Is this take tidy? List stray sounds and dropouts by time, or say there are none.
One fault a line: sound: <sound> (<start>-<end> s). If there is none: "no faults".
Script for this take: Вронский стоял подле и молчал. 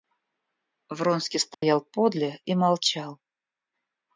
sound: dropout (1.5-1.6 s)